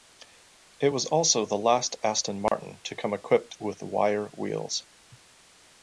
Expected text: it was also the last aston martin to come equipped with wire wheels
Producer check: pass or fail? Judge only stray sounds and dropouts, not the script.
fail